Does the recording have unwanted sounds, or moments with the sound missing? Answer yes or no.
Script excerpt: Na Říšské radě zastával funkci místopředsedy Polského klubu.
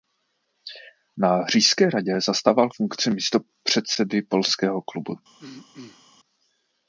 yes